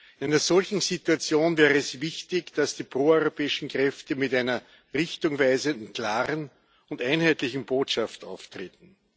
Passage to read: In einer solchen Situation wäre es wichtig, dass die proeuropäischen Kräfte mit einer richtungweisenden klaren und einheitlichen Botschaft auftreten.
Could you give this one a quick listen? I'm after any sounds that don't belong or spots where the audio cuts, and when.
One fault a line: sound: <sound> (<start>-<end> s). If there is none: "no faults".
no faults